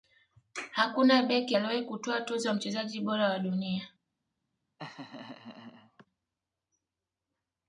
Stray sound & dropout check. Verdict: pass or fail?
fail